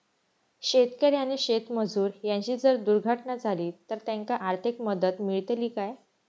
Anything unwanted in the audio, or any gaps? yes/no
no